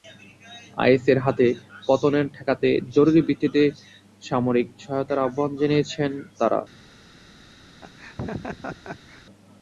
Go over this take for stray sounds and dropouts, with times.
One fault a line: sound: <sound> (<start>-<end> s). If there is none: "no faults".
sound: laugh (7.8-9.2 s)